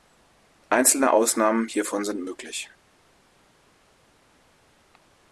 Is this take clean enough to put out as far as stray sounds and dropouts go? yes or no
yes